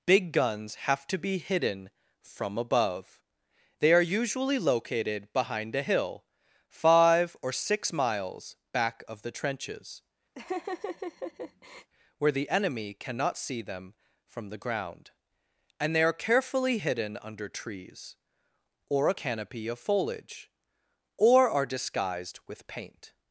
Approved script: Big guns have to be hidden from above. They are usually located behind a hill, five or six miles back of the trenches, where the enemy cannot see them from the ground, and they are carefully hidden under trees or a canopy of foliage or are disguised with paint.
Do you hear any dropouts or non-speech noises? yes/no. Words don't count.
yes